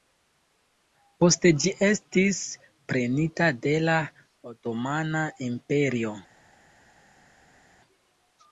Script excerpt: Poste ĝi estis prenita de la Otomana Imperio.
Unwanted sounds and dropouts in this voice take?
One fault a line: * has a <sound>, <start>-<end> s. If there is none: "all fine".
all fine